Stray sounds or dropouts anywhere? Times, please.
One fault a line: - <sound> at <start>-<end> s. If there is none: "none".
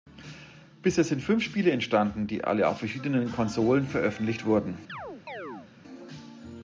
- chirp at 4.9-5.7 s